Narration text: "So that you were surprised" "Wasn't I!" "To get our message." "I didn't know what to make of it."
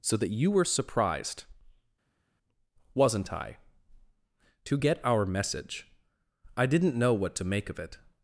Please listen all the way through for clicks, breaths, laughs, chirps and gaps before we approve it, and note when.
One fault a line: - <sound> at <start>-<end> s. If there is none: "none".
none